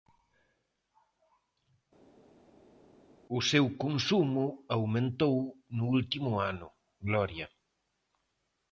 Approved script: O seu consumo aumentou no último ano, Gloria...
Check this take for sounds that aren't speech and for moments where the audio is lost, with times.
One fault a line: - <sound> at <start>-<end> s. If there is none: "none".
none